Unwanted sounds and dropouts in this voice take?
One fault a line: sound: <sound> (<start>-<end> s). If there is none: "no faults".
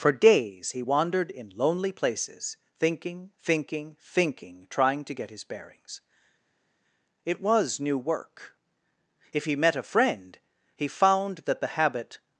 no faults